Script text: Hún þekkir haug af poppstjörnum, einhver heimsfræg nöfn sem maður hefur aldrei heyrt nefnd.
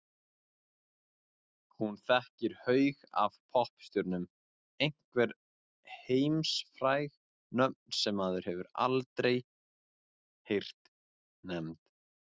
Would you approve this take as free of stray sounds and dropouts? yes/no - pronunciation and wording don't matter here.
yes